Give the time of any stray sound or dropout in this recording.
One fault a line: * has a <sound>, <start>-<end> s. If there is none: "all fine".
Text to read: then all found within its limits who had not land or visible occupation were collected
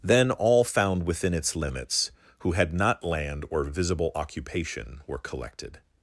all fine